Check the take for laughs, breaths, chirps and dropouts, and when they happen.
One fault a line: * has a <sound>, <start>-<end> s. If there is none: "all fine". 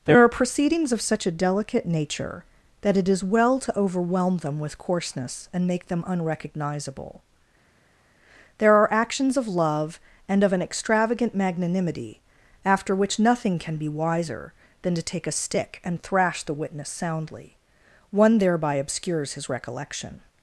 all fine